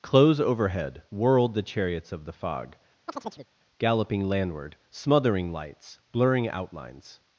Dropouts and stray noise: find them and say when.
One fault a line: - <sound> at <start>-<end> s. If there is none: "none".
- chirp at 3.1-3.5 s